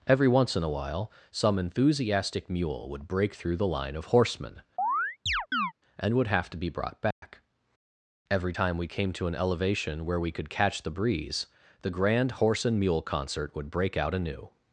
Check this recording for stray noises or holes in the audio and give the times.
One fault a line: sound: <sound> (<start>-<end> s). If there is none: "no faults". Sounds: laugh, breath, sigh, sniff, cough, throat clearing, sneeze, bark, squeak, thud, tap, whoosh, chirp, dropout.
sound: chirp (4.8-5.7 s)
sound: dropout (7.1-7.2 s)